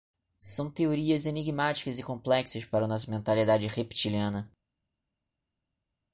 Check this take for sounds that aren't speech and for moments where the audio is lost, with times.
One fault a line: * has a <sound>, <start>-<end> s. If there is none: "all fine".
all fine